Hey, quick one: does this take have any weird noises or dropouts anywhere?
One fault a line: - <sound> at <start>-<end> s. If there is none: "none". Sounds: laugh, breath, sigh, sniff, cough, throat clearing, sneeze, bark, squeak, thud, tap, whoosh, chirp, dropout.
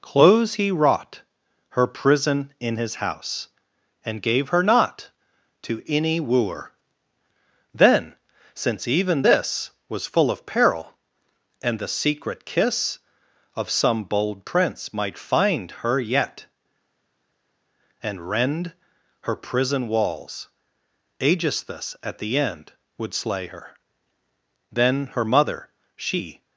none